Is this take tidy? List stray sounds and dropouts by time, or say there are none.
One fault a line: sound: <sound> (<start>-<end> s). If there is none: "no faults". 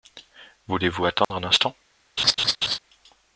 sound: dropout (1.2-1.3 s)
sound: laugh (2.2-2.8 s)